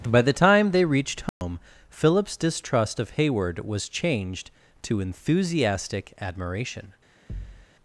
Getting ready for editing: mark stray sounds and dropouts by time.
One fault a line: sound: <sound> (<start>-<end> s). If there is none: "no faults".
sound: dropout (1.3-1.4 s)
sound: thud (7.3-7.7 s)